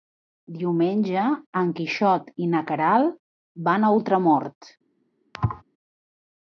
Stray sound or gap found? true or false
true